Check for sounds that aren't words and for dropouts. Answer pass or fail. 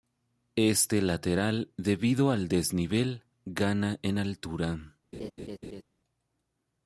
fail